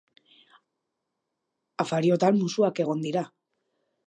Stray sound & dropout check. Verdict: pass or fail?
pass